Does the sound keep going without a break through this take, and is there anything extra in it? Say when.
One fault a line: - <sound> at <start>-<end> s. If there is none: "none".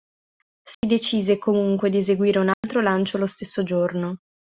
- dropout at 0.7-0.8 s
- dropout at 2.5-2.6 s